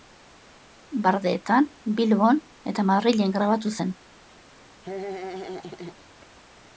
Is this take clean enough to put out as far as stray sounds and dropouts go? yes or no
no